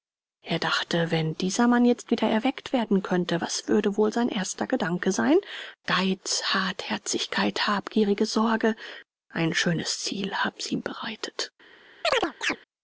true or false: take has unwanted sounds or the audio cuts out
true